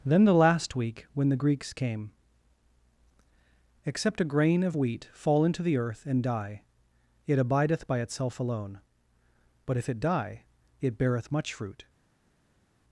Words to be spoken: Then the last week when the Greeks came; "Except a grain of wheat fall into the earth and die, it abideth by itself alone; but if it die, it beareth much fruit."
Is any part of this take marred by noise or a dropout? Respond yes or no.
no